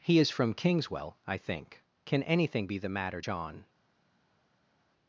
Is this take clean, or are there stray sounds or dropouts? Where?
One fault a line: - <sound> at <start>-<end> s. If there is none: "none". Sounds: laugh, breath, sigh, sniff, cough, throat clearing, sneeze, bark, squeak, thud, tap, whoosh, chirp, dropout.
none